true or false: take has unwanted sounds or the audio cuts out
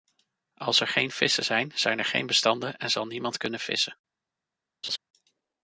true